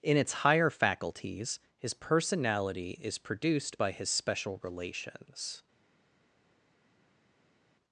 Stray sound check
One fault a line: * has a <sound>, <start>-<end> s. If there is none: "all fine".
all fine